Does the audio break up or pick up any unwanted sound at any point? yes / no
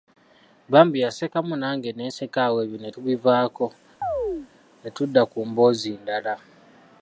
yes